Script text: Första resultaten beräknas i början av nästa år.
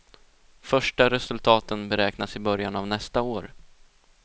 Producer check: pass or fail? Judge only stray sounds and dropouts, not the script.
pass